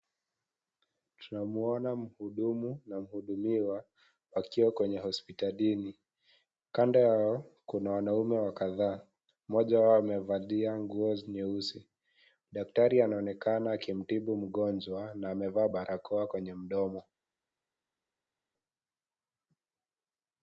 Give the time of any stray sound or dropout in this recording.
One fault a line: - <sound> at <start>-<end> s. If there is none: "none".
none